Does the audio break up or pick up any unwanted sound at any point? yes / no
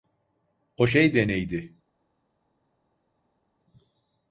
no